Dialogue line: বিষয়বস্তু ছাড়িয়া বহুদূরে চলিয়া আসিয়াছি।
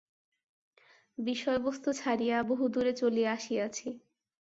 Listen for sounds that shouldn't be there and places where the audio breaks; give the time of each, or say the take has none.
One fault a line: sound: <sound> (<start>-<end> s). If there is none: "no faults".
no faults